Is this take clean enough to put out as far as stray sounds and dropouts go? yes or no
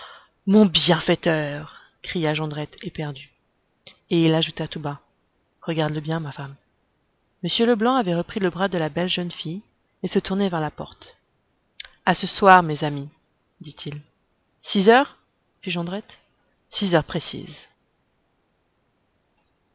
yes